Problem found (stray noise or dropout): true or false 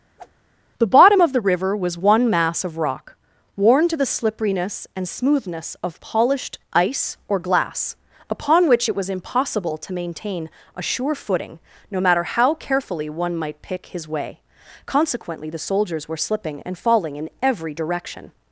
true